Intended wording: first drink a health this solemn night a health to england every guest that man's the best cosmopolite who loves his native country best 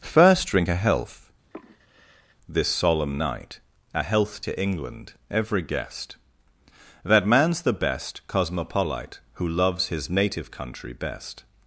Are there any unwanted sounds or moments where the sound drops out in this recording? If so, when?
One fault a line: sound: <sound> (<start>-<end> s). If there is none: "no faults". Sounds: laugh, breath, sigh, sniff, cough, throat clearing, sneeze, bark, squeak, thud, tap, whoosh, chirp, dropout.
sound: sigh (1.5-2.4 s)